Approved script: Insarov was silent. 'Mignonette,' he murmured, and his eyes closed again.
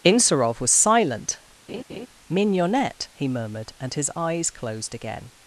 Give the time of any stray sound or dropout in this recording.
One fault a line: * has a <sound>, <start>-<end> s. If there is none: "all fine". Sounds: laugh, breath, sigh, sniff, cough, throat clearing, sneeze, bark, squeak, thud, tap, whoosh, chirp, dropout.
* has a laugh, 1.7-2.1 s